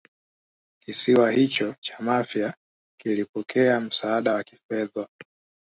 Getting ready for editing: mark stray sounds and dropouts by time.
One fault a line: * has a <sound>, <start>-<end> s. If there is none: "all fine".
all fine